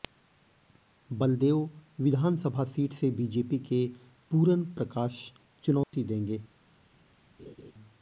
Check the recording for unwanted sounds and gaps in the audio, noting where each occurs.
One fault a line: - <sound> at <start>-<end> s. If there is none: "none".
- dropout at 5.8-5.9 s
- laugh at 7.4-7.7 s